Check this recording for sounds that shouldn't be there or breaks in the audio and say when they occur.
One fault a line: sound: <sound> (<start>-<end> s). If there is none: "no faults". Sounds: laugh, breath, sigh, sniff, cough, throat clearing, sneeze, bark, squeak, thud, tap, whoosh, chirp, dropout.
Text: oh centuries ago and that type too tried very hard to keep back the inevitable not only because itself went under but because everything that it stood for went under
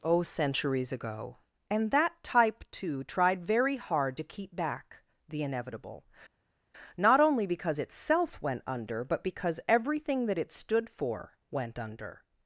no faults